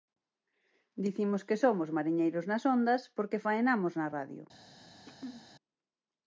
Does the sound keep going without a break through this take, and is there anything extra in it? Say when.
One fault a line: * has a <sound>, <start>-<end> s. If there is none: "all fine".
* has a throat clearing, 5.1-5.5 s